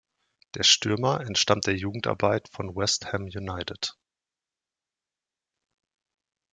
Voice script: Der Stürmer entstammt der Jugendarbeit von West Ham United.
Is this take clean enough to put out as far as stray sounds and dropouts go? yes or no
yes